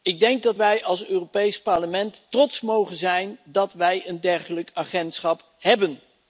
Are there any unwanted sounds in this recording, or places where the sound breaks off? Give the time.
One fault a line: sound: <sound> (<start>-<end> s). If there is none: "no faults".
no faults